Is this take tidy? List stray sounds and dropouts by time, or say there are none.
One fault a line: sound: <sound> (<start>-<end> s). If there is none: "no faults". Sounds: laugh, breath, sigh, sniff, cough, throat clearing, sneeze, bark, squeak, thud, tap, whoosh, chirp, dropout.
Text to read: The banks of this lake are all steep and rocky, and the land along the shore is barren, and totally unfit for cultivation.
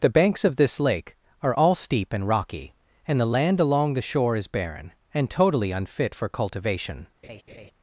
sound: laugh (7.2-7.7 s)